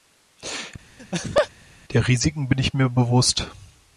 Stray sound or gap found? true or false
true